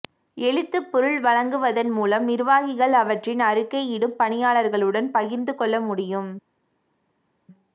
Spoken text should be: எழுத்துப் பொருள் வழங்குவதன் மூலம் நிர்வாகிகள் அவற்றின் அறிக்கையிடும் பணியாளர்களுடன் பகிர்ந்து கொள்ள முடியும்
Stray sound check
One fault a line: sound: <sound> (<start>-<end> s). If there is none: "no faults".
no faults